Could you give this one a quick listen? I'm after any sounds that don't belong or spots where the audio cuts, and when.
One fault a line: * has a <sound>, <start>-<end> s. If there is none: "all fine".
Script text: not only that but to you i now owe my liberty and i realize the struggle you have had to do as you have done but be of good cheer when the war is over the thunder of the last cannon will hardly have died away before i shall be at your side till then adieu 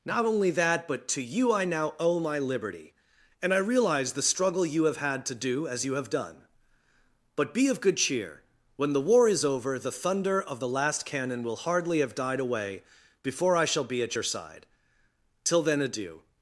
all fine